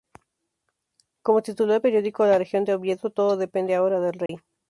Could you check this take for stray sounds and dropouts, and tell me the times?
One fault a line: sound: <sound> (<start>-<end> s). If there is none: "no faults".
sound: dropout (4.3-4.3 s)